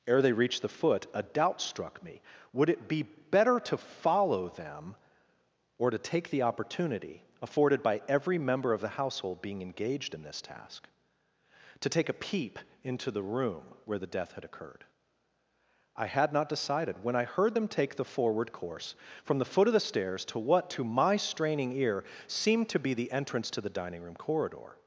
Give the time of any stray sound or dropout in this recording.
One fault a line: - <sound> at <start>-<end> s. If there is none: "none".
none